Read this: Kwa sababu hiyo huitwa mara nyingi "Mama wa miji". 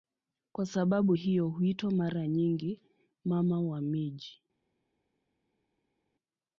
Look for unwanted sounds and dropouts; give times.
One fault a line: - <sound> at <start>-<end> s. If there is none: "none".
none